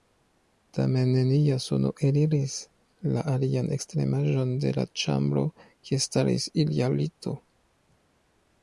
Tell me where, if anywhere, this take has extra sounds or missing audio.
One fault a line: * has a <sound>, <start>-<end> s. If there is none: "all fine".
all fine